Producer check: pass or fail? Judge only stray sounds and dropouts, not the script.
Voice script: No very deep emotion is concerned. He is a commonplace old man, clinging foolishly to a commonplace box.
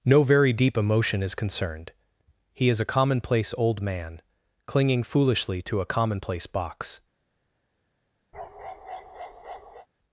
fail